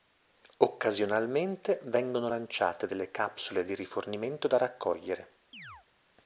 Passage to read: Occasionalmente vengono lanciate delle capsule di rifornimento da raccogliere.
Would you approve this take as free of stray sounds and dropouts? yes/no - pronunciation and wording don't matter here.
no